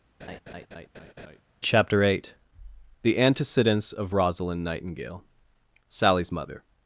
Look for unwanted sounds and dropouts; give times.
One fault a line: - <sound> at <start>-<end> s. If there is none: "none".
- laugh at 0.2-1.4 s